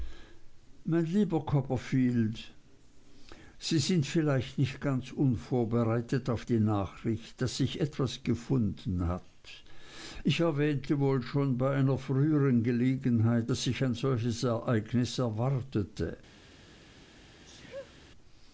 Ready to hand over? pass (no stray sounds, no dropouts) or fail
fail